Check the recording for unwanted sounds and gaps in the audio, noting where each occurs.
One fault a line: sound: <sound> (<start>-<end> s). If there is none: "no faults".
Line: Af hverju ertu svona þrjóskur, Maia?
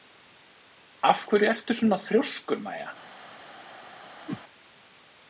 sound: whoosh (4.3-4.4 s)